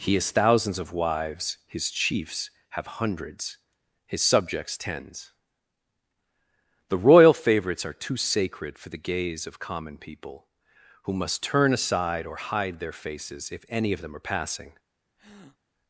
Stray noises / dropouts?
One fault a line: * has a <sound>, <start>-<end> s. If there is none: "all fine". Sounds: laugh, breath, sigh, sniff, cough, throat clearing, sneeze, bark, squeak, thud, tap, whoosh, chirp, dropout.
* has a breath, 15.2-15.6 s